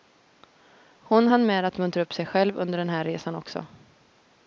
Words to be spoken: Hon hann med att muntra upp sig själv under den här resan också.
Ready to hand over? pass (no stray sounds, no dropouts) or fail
pass